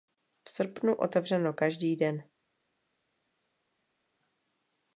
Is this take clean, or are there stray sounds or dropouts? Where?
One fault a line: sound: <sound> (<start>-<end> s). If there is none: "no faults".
no faults